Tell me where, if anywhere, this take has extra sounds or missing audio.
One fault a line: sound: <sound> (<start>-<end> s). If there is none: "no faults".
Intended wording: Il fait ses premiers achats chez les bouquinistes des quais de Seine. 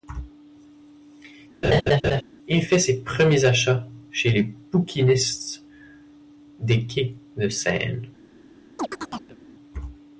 sound: laugh (1.6-2.2 s)
sound: chirp (8.8-9.4 s)